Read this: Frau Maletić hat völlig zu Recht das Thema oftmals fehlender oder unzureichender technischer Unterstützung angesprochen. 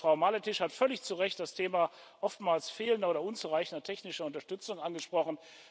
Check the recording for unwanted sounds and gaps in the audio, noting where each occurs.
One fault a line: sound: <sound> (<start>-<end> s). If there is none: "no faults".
no faults